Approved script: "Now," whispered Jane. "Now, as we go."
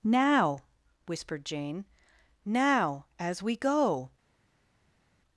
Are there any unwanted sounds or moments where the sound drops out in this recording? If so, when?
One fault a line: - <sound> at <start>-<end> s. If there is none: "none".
none